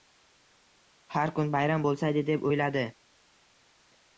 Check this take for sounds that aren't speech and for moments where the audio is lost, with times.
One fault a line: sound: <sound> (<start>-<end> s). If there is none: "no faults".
no faults